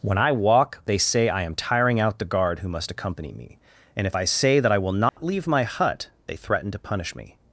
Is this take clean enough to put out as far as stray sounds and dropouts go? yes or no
no